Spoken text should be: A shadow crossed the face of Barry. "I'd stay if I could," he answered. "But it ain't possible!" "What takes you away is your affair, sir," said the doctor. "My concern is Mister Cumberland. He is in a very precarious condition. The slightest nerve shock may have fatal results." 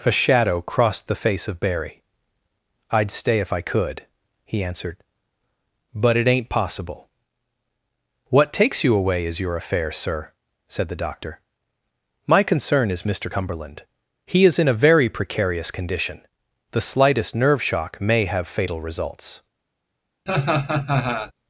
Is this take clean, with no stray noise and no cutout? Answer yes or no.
no